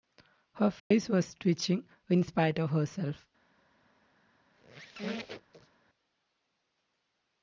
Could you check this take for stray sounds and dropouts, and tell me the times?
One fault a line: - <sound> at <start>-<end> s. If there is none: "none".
- dropout at 0.8-0.9 s
- squeak at 4.5-5.8 s